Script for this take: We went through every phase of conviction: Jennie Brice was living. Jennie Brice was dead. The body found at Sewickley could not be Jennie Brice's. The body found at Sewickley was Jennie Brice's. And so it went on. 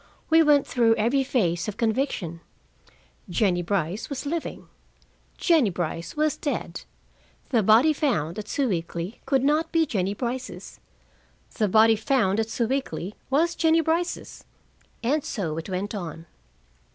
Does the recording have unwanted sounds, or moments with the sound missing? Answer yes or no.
no